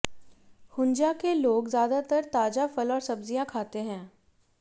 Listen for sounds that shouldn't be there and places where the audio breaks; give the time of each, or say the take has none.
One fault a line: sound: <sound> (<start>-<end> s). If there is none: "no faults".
no faults